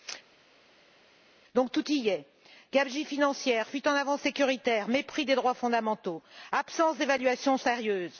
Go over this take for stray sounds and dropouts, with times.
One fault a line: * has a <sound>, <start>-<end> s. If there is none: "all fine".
all fine